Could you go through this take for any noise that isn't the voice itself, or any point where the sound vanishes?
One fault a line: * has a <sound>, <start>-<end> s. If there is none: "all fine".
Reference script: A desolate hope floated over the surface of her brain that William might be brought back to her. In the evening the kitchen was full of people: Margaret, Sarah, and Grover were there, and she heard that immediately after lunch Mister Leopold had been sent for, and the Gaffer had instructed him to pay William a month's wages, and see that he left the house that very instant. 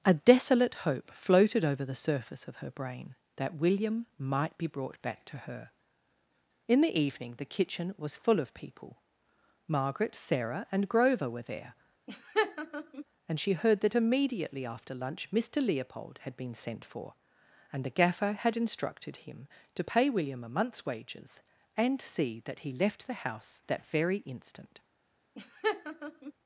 * has a laugh, 12.1-13.0 s
* has a laugh, 25.3-26.3 s